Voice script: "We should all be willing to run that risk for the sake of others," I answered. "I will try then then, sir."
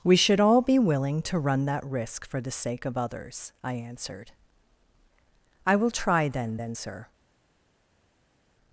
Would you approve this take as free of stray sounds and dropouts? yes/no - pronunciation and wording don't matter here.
yes